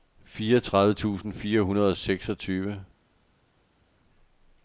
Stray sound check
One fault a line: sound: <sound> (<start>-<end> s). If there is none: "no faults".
no faults